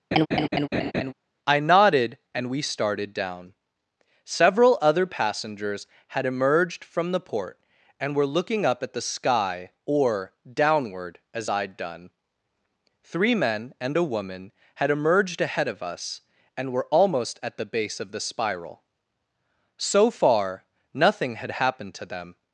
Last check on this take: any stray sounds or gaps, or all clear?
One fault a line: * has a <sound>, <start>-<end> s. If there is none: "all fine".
* has a laugh, 0.1-1.1 s